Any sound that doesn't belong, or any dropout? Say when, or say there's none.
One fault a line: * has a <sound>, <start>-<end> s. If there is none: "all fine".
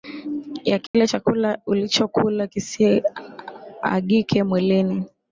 * has a dropout, 0.9-0.9 s